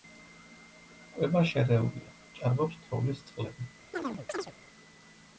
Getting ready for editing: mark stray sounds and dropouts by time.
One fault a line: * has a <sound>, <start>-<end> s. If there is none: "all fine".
* has a chirp, 3.9-4.5 s